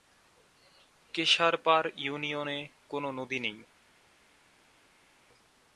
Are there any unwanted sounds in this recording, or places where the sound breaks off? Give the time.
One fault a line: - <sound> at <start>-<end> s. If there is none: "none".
none